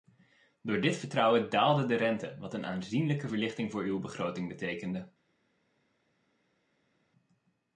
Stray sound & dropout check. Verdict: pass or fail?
pass